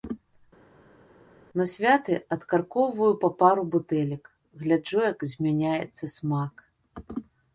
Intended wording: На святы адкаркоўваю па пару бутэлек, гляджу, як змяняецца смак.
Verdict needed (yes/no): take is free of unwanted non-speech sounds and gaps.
yes